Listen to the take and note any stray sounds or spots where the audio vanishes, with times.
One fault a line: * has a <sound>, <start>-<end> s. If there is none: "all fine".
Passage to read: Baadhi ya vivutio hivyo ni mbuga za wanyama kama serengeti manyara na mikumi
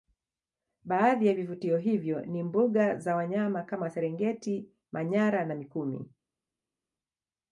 all fine